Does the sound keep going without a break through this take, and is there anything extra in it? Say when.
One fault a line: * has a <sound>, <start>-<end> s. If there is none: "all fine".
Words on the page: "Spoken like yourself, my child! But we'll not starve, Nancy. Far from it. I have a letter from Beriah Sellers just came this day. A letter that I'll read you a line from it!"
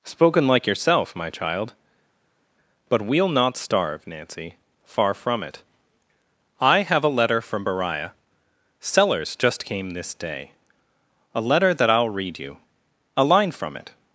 all fine